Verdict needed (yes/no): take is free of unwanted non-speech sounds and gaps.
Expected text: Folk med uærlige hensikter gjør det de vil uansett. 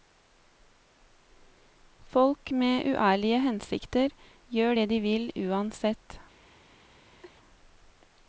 no